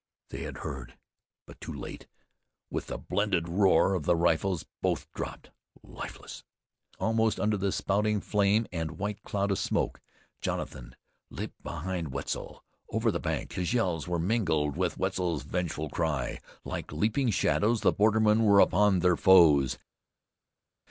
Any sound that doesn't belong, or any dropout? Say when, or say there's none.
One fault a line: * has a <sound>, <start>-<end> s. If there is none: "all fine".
all fine